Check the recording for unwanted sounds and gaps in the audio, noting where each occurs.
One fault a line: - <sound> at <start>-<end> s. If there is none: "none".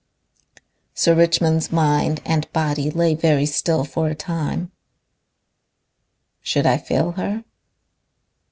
none